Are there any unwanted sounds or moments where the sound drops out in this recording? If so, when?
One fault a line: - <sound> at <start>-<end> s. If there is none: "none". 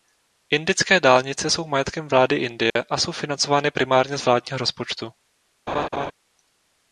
- dropout at 2.7-2.8 s
- laugh at 5.7-6.1 s